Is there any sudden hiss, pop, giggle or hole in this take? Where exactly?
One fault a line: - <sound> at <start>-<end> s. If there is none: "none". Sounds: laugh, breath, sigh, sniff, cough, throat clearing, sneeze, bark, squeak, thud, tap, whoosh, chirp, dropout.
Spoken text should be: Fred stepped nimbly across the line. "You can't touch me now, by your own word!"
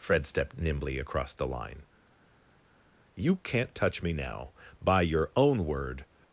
none